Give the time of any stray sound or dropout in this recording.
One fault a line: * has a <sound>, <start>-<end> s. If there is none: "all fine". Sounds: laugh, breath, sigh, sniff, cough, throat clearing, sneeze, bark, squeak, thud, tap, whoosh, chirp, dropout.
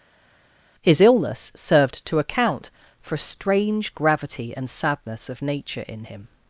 all fine